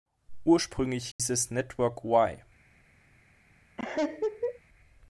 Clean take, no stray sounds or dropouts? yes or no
no